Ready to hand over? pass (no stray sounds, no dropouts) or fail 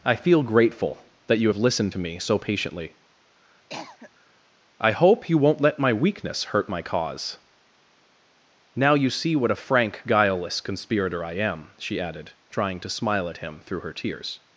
fail